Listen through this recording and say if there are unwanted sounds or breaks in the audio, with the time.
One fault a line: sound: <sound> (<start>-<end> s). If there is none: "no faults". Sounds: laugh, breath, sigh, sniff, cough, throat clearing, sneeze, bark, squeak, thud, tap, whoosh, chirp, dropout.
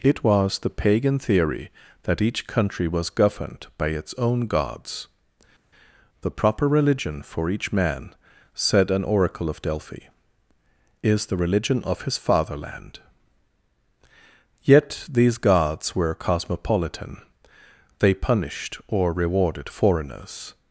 no faults